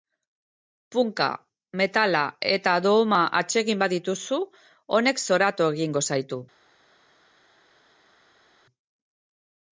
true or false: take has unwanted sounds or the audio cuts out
false